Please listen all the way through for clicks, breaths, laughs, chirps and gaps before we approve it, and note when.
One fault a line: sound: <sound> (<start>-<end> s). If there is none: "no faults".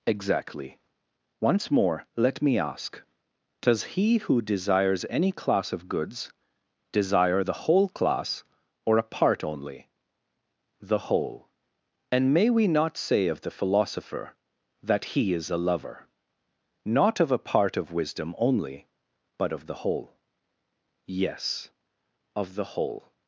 no faults